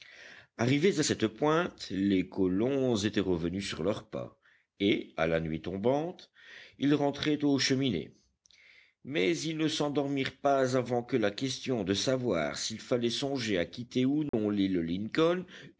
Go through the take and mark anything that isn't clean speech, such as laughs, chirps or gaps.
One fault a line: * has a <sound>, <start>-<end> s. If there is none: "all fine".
* has a dropout, 14.3-14.3 s